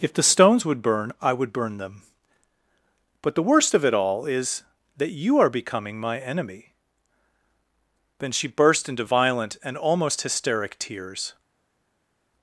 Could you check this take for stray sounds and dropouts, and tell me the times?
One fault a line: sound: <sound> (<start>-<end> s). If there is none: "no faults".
no faults